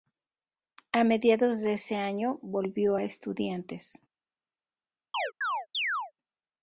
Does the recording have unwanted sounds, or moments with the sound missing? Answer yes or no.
yes